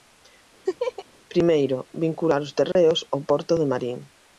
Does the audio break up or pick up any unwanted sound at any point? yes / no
yes